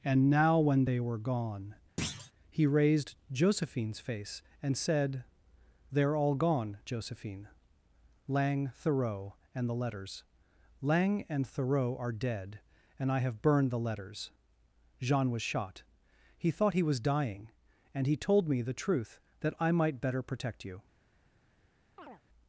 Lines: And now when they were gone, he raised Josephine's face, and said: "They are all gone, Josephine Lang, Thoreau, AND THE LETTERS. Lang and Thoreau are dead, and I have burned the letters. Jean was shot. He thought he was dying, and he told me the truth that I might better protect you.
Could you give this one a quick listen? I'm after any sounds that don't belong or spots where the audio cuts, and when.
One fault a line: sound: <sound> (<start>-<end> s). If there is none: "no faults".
sound: thud (2.0-2.3 s)
sound: chirp (22.0-22.2 s)